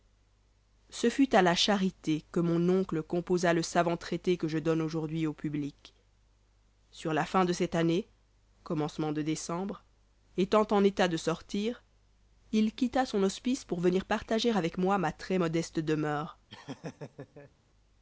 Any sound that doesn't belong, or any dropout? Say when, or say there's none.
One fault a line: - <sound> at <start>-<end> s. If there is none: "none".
- laugh at 16.5-17.5 s